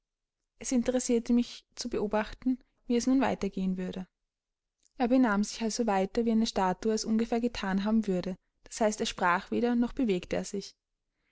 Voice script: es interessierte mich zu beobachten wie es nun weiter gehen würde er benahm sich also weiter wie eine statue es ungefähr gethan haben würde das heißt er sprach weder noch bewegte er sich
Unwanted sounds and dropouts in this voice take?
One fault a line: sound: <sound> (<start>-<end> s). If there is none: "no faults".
no faults